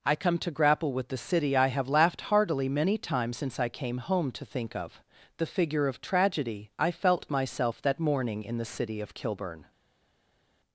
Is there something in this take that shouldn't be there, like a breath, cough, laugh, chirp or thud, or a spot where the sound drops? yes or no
no